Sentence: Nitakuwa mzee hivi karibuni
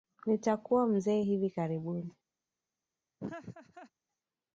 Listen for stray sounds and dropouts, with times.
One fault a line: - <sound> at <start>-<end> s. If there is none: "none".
- laugh at 3.2-3.9 s